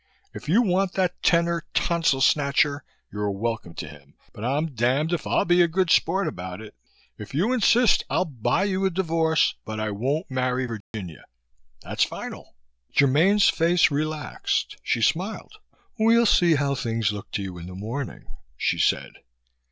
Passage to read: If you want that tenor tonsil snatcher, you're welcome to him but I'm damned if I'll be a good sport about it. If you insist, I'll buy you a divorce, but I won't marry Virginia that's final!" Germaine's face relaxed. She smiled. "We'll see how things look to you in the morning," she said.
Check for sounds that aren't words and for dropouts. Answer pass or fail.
fail